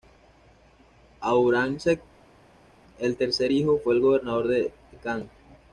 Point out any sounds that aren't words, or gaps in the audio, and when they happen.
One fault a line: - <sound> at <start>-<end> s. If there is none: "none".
none